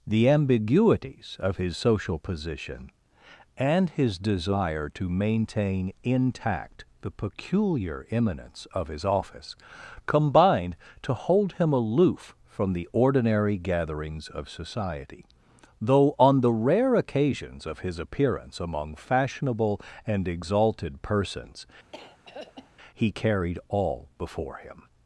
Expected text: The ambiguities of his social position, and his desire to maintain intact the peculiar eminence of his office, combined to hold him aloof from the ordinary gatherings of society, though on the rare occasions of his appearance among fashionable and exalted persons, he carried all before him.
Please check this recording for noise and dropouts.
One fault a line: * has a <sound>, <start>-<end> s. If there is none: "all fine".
* has a throat clearing, 21.9-22.7 s